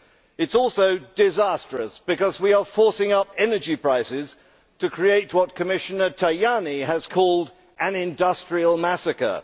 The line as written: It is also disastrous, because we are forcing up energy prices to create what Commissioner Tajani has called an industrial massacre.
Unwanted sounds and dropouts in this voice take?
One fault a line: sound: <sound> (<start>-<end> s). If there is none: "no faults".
no faults